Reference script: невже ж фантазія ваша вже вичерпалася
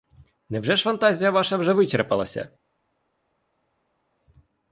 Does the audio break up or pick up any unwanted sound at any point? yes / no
no